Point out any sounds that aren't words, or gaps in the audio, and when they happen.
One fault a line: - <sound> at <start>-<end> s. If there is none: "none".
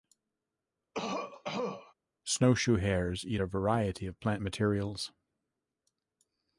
- cough at 0.9-1.9 s